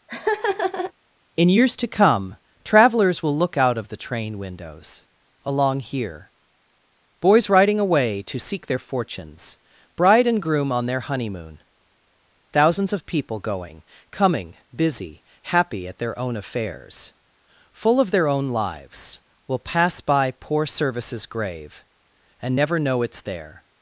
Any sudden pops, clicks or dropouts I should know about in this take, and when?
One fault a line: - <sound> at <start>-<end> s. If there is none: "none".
- laugh at 0.1-0.9 s